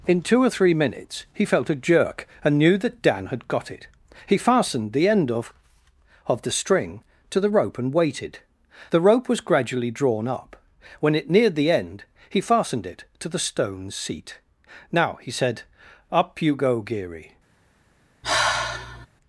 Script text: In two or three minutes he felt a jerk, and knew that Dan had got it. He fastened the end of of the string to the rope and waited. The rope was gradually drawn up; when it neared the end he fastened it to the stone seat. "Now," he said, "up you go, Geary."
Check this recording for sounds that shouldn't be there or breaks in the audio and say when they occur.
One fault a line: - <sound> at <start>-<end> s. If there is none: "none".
- sigh at 18.2-19.1 s